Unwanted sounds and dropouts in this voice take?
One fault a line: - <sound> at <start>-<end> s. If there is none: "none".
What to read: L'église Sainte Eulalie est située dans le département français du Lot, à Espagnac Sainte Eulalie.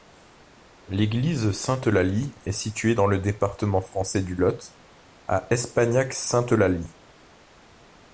none